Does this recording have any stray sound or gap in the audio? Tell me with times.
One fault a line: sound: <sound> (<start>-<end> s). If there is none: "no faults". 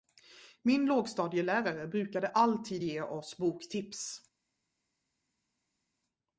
no faults